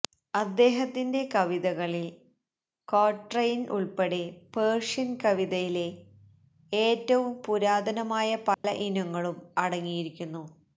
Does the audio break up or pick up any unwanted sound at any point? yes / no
yes